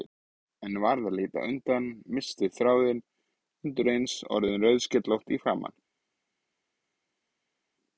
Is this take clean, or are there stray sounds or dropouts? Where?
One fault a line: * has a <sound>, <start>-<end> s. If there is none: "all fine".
all fine